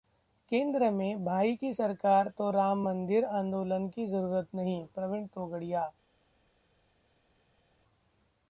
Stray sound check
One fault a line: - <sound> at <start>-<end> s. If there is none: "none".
none